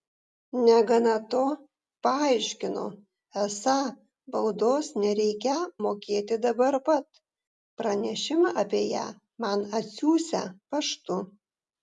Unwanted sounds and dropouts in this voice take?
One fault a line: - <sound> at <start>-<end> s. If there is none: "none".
none